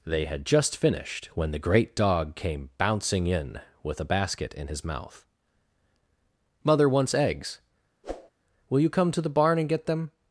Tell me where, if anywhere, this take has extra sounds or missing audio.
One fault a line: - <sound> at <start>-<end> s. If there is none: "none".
- whoosh at 8.0-8.3 s